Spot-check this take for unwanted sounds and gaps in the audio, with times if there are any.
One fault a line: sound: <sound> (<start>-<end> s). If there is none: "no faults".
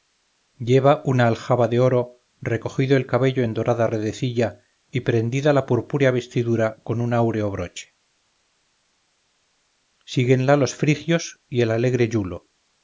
no faults